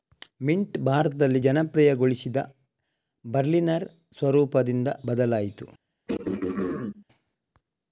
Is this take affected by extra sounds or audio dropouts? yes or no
yes